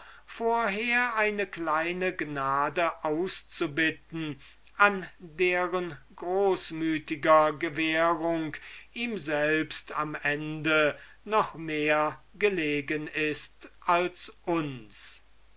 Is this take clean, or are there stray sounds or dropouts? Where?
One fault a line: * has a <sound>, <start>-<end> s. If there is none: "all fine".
all fine